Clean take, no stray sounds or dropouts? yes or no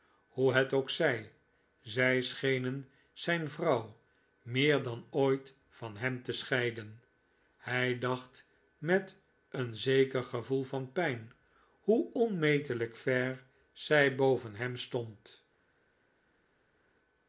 yes